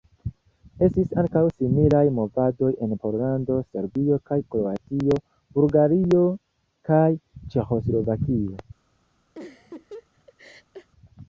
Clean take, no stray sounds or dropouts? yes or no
no